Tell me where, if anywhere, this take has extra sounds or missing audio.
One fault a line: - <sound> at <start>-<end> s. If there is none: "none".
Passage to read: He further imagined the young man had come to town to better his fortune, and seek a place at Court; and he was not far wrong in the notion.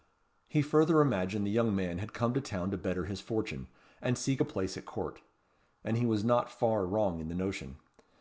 none